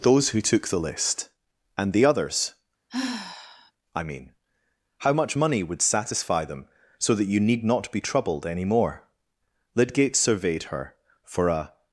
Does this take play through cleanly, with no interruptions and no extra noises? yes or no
no